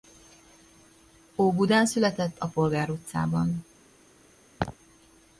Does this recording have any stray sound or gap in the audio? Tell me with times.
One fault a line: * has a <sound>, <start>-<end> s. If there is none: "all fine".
* has a laugh, 4.6-4.8 s